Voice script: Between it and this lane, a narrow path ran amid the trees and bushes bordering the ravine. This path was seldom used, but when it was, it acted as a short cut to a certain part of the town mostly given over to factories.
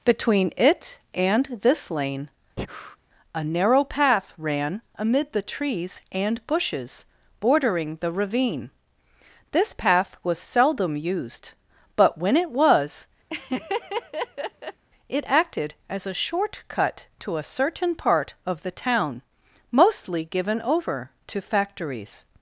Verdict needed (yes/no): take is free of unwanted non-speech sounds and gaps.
no